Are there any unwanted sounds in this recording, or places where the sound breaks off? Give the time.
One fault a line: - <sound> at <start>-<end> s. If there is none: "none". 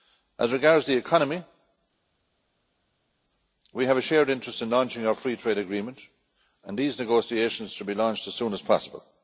none